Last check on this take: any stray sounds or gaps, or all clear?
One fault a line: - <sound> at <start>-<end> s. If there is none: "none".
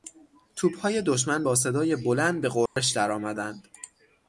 - dropout at 2.7-2.8 s